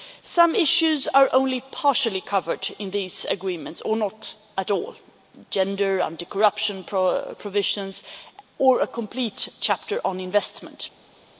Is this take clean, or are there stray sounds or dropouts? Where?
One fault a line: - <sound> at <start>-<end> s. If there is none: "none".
none